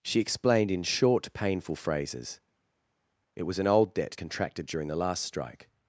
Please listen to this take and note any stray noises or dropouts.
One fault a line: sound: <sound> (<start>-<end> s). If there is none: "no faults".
no faults